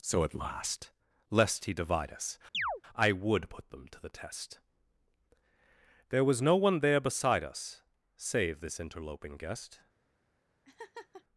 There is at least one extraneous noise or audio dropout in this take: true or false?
true